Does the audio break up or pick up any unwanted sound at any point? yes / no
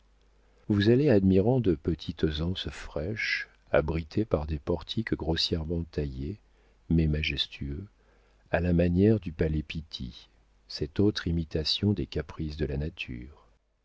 no